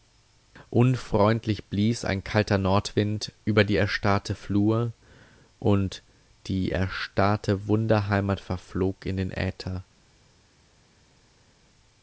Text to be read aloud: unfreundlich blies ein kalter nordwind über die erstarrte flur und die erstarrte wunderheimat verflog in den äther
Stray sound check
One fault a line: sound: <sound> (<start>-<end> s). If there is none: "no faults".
no faults